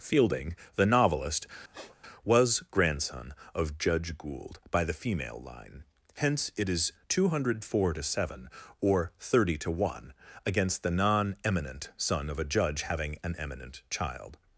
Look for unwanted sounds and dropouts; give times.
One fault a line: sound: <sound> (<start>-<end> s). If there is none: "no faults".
sound: sniff (1.7-2.0 s)